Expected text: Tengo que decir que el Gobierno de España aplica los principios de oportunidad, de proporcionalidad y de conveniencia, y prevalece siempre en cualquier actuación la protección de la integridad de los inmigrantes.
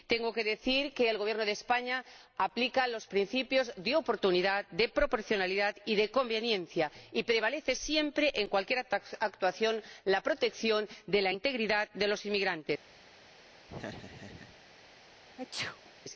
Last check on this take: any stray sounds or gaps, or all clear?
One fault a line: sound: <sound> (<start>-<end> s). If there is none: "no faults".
sound: laugh (13.7-14.6 s)
sound: sneeze (15.4-15.9 s)